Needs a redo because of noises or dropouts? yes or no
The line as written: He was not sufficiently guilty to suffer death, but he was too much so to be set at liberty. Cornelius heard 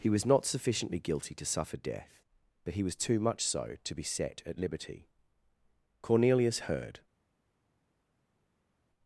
no